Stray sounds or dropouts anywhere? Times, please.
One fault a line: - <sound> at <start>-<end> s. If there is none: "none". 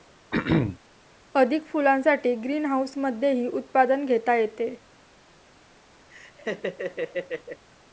- throat clearing at 0.3-0.8 s
- laugh at 6.1-7.7 s